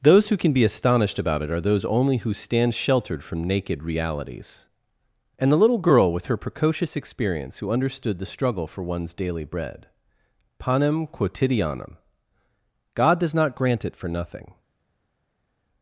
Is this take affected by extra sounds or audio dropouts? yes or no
no